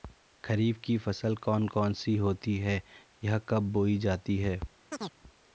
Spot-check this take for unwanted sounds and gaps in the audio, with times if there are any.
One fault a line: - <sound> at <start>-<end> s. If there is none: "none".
- chirp at 4.9-5.2 s